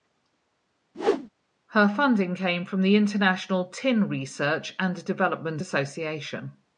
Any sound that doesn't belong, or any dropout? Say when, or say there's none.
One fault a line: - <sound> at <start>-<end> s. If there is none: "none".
- whoosh at 0.9-1.3 s